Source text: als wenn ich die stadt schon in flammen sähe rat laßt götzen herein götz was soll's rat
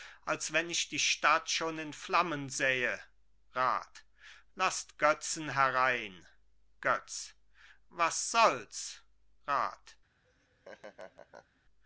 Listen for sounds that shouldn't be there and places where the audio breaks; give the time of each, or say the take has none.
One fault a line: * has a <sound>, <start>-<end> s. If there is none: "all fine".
* has a laugh, 10.2-11.6 s